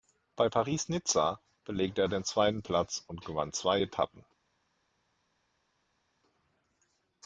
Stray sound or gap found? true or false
false